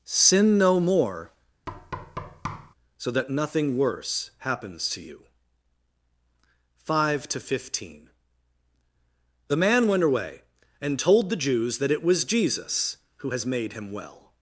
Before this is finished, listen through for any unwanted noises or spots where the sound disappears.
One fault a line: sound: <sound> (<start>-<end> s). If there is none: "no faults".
sound: thud (1.7-2.7 s)